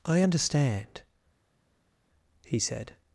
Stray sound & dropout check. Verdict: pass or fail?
pass